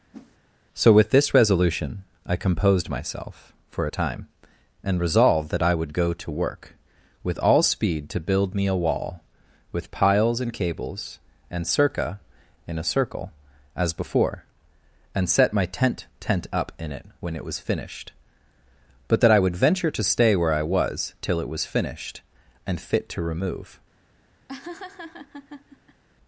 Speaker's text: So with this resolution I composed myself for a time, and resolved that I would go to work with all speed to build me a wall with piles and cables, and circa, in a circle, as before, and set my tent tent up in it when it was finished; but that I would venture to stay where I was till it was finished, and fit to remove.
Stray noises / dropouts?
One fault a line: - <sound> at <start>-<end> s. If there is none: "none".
- whoosh at 0.1-0.4 s
- laugh at 24.5-26.0 s